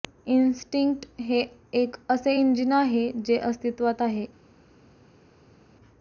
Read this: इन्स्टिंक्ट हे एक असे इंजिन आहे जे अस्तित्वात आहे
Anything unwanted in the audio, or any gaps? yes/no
no